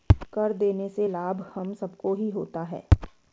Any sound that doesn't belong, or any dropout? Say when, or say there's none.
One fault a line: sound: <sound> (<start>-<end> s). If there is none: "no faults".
no faults